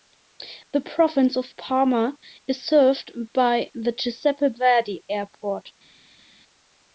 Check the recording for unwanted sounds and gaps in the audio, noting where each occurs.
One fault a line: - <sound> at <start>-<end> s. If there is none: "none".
none